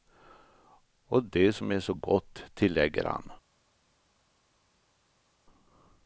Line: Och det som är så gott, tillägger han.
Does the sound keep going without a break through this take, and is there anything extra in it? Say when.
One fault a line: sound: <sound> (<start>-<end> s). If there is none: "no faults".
no faults